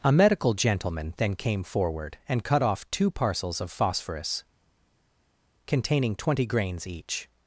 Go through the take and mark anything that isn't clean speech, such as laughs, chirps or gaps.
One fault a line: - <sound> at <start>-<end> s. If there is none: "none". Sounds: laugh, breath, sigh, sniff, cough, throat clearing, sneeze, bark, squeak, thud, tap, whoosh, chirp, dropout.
none